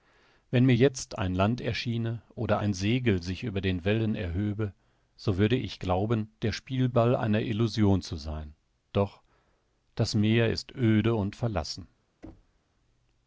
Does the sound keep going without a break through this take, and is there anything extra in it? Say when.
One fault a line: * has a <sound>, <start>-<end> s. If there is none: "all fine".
* has a thud, 12.2-12.6 s